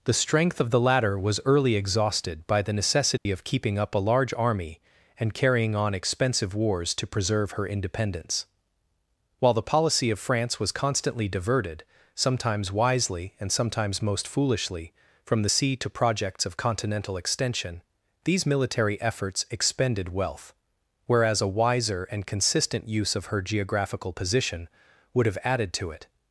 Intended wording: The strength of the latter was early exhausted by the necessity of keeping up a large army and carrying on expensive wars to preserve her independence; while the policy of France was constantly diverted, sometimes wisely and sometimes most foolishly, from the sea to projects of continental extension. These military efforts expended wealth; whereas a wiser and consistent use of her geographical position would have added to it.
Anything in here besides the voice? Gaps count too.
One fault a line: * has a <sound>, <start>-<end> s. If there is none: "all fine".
* has a dropout, 3.2-3.3 s